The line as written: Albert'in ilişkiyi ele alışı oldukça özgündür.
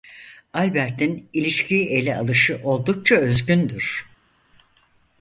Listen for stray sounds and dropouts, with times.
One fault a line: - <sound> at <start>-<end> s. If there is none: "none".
none